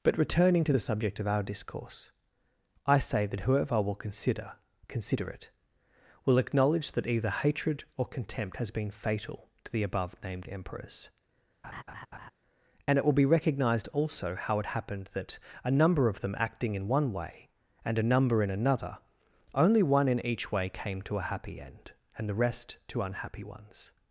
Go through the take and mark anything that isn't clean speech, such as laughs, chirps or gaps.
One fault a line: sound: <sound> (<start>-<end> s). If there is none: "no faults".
sound: laugh (11.6-12.3 s)